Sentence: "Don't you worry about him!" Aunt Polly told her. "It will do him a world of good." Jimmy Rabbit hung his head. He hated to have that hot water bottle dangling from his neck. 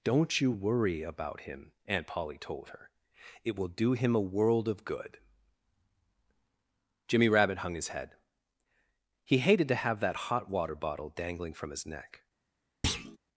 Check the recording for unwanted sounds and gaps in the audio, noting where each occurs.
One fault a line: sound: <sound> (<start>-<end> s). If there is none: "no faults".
sound: thud (12.8-13.2 s)